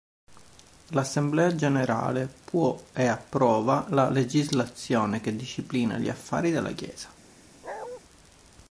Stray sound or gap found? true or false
true